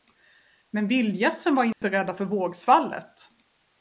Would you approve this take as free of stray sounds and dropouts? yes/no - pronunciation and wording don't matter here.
no